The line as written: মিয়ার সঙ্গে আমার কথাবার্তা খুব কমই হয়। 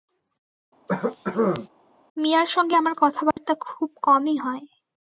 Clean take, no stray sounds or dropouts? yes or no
no